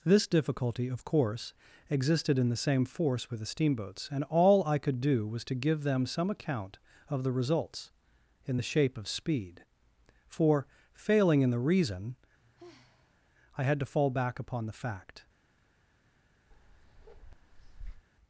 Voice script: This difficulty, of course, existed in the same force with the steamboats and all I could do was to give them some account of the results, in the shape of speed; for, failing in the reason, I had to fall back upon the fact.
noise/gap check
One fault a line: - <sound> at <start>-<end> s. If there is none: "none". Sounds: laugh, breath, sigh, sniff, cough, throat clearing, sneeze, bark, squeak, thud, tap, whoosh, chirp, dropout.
- sigh at 12.4-13.3 s
- bark at 16.5-18.1 s